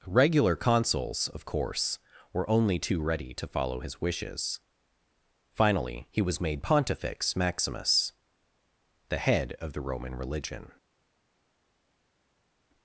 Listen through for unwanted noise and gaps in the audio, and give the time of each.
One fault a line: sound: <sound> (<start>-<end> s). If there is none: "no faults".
no faults